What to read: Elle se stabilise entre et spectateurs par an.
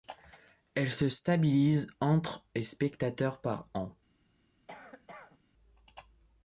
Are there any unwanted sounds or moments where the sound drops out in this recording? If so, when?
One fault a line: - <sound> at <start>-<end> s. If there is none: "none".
- cough at 4.7-5.4 s